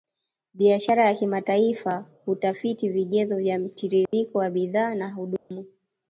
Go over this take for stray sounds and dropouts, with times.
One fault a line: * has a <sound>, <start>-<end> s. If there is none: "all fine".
* has a dropout, 4.1-4.1 s
* has a dropout, 5.4-5.5 s